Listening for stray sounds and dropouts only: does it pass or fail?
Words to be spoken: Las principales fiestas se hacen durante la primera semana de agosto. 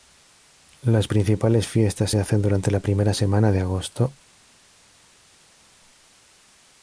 pass